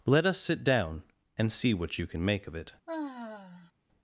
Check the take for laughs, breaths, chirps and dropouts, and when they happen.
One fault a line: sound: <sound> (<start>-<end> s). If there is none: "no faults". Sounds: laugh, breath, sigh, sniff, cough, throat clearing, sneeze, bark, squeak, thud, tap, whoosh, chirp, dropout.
sound: sigh (2.9-3.7 s)